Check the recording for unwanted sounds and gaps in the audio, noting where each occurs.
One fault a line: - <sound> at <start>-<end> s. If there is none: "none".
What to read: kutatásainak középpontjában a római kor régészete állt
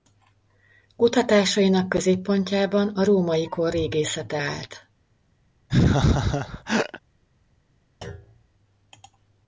- laugh at 5.7-7.0 s
- thud at 8.0-8.5 s